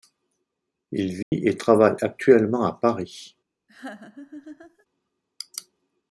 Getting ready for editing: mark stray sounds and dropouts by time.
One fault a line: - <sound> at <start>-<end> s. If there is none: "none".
- dropout at 1.2-1.3 s
- laugh at 3.7-4.9 s